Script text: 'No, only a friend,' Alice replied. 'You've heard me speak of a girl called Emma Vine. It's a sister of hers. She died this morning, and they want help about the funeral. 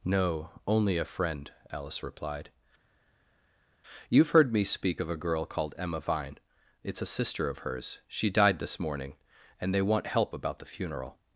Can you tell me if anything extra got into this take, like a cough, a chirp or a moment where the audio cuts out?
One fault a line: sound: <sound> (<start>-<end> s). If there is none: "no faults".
no faults